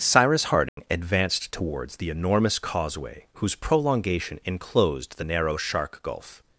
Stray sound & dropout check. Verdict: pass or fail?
fail